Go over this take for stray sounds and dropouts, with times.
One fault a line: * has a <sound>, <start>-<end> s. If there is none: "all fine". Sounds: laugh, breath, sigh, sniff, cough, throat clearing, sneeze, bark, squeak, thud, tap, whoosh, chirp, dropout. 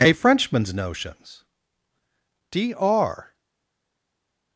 all fine